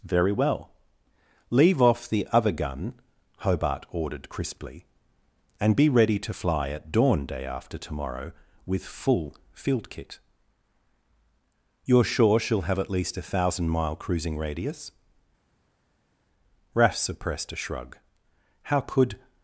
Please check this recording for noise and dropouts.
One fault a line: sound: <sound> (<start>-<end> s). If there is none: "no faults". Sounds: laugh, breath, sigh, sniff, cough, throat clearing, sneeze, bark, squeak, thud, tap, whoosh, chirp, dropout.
no faults